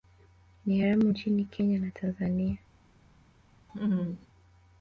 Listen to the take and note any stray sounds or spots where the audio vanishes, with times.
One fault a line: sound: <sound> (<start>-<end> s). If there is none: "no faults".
sound: laugh (3.7-4.3 s)